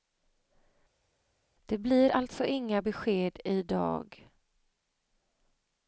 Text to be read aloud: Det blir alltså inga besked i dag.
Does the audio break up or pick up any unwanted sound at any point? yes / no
no